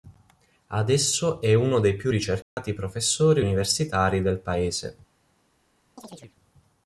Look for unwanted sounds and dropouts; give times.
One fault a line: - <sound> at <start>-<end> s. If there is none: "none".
- dropout at 2.4-2.6 s
- chirp at 6.0-6.4 s